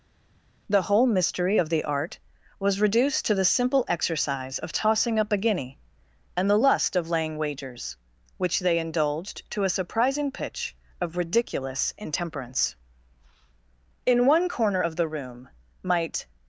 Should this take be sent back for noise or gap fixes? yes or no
no